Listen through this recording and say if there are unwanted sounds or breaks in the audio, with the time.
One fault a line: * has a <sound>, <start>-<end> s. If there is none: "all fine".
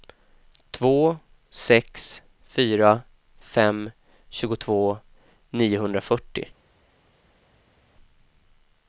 all fine